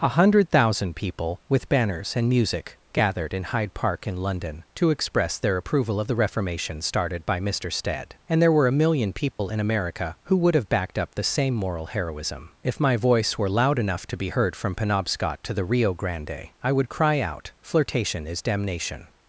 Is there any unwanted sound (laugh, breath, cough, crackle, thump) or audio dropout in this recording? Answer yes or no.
yes